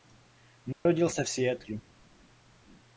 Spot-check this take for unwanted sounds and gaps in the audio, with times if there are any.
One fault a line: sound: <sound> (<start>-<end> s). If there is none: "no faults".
sound: dropout (0.7-0.9 s)